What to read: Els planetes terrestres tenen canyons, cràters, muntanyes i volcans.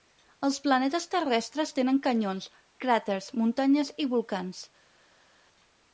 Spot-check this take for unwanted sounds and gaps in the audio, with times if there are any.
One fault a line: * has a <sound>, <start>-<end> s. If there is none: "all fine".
all fine